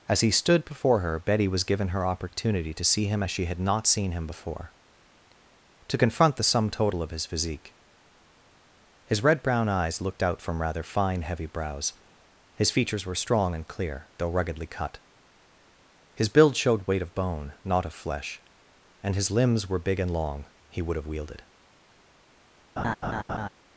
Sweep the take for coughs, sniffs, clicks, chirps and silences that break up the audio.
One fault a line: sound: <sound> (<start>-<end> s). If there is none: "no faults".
sound: laugh (22.8-23.5 s)